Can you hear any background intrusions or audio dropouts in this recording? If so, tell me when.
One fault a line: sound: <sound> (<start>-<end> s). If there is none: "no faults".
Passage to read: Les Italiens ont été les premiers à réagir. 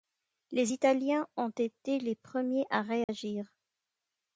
sound: dropout (3.0-3.1 s)